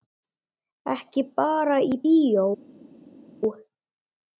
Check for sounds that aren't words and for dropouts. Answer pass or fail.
pass